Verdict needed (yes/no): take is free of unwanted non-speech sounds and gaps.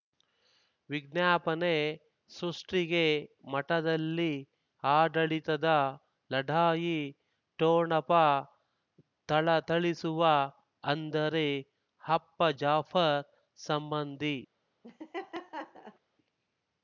no